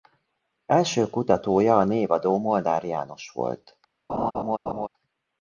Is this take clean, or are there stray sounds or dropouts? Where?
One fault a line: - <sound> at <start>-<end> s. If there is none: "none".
- laugh at 4.1-4.9 s